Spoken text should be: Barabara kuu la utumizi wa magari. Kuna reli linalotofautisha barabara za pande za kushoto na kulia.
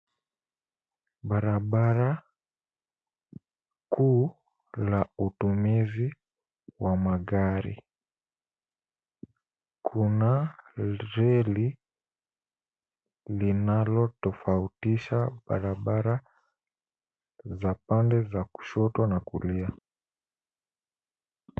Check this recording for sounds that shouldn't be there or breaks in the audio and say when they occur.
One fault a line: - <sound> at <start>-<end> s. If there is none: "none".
none